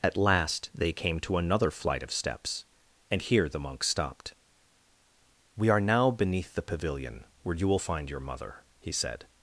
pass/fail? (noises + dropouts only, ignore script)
pass